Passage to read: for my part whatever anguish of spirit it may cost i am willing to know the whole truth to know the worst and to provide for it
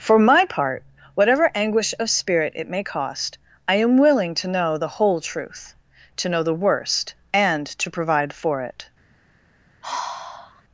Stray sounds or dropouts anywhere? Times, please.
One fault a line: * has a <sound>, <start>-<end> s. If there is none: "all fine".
* has a sigh, 9.8-10.6 s